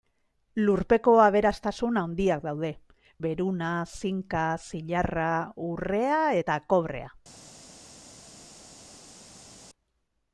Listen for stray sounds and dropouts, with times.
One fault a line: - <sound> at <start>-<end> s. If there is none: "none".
none